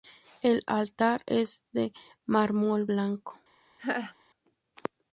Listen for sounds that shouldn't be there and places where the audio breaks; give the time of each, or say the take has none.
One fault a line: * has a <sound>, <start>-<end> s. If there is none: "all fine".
* has a laugh, 3.8-4.1 s